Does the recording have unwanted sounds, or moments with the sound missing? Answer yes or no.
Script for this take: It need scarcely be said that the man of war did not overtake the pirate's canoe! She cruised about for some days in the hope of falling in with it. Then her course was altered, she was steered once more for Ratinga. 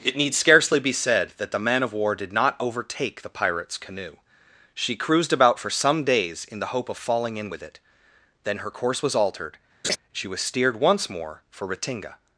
yes